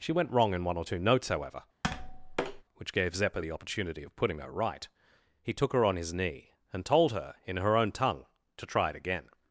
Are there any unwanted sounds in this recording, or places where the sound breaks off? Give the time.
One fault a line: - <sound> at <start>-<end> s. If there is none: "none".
- tap at 1.8-2.6 s